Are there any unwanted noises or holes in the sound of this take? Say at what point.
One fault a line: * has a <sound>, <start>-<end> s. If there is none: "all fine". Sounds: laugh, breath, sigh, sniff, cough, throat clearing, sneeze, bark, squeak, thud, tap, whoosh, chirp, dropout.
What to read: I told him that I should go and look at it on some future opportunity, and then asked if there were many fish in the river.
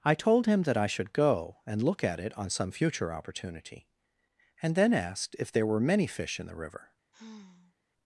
* has a sigh, 7.1-7.8 s